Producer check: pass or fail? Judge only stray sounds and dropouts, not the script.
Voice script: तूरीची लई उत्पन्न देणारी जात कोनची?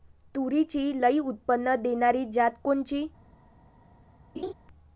fail